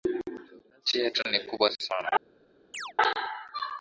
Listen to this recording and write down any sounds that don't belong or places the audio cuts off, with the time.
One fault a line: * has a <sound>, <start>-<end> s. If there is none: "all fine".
* has a chirp, 2.7-2.9 s